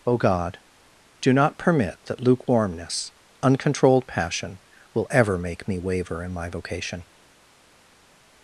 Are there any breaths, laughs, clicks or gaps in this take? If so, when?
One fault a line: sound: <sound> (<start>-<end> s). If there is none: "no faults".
no faults